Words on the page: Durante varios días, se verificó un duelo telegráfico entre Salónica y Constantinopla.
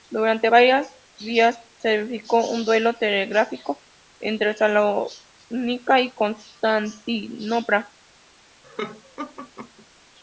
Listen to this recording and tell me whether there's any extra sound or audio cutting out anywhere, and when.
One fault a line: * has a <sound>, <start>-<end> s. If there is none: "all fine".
* has a laugh, 8.6-9.9 s